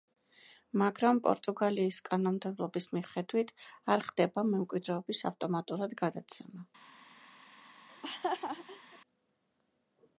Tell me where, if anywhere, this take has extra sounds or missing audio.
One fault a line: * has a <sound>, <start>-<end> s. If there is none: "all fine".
* has a laugh, 7.9-9.0 s